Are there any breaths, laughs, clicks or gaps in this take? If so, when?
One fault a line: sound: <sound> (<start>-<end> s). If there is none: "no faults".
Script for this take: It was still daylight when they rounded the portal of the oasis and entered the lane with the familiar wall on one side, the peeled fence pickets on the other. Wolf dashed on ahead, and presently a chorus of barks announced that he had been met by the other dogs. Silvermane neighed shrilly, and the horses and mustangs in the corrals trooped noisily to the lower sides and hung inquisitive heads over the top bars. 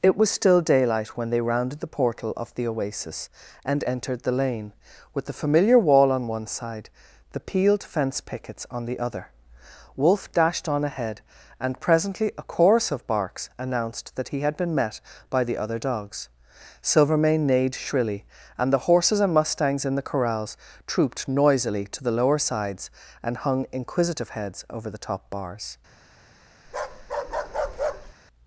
sound: bark (26.7-28.1 s)